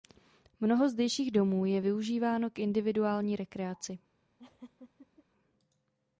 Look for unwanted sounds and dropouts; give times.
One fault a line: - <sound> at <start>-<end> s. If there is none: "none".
- laugh at 4.4-5.2 s